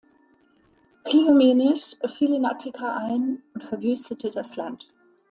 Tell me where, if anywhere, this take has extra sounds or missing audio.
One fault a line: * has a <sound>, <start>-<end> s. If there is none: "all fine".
all fine